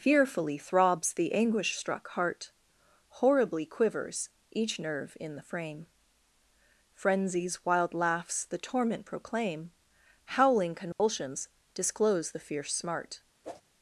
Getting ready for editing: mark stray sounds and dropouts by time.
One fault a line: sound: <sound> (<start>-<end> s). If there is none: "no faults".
sound: dropout (10.9-11.0 s)
sound: whoosh (13.4-13.6 s)